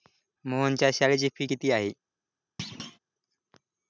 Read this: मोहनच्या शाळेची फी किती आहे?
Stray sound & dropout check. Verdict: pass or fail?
fail